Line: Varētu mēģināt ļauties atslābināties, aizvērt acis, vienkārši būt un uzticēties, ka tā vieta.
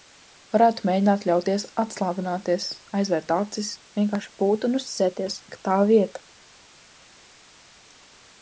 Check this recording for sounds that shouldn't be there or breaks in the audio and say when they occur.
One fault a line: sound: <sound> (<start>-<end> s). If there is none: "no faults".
no faults